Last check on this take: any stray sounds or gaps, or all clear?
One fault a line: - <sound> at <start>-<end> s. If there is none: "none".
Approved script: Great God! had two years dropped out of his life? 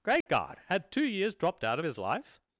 - dropout at 0.2-0.3 s